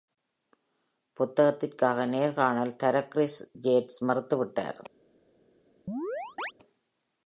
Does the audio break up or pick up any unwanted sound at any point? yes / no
yes